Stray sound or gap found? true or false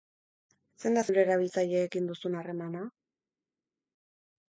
false